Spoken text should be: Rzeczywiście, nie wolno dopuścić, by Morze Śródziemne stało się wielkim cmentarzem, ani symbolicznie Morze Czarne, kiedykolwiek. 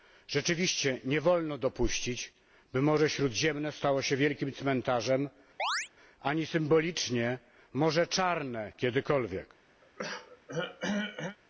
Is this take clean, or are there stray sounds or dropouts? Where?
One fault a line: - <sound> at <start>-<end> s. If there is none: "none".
- chirp at 5.6-5.9 s
- throat clearing at 9.8-11.4 s